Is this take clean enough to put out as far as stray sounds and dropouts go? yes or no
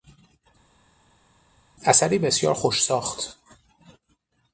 yes